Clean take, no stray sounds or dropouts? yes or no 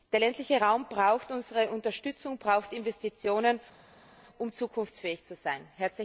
yes